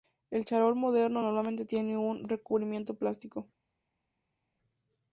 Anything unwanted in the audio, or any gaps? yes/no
no